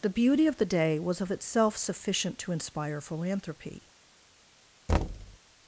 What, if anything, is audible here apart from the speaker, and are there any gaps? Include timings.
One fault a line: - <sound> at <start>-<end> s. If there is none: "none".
- thud at 4.9-5.4 s